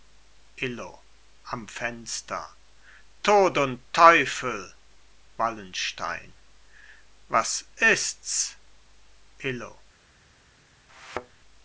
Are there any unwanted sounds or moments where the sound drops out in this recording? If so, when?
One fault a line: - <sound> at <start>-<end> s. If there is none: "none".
- thud at 10.9-11.4 s